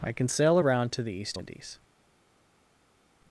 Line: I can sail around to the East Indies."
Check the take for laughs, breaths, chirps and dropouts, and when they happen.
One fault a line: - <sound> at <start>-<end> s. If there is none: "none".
none